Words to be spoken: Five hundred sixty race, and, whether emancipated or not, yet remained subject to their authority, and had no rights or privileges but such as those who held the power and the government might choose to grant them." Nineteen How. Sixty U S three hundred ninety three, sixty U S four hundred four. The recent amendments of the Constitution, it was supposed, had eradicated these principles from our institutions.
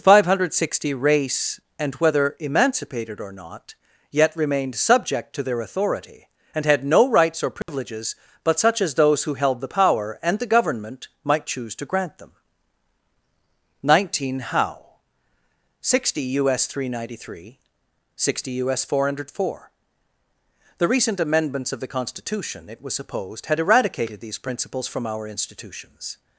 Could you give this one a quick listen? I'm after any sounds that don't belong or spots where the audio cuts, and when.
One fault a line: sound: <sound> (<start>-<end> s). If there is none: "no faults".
sound: dropout (7.6-7.7 s)